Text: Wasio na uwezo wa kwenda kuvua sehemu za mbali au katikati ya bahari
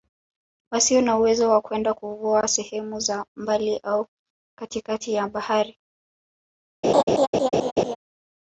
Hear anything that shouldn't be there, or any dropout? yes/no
yes